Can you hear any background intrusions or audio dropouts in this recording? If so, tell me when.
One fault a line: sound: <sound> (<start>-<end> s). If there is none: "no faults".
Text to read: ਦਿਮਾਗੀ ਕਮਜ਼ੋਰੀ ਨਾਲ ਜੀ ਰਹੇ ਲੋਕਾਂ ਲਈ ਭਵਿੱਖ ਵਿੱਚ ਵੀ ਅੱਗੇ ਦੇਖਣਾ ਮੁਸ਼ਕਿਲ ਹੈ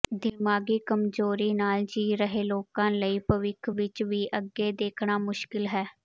no faults